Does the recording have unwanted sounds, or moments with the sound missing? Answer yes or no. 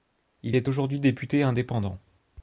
no